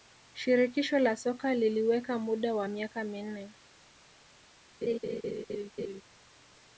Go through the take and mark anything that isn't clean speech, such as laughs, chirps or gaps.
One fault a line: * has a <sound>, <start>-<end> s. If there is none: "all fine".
* has a laugh, 4.8-6.0 s